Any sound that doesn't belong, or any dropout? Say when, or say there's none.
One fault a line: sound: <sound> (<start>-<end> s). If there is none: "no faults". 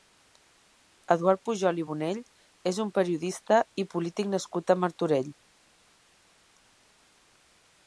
no faults